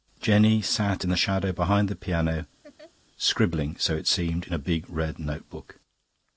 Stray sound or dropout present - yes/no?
yes